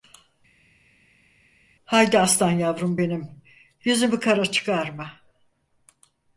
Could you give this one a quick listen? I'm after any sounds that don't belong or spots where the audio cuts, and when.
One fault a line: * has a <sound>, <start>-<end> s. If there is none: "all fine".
all fine